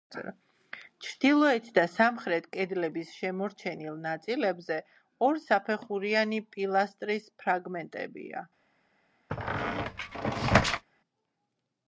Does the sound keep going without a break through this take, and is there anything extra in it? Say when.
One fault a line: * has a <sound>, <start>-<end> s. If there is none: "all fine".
* has a squeak, 9.3-10.8 s